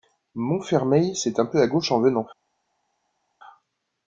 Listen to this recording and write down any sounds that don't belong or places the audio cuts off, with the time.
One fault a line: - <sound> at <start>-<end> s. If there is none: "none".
none